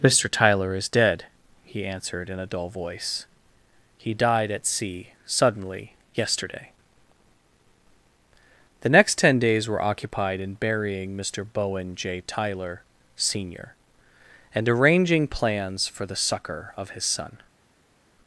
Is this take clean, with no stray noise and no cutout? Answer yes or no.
yes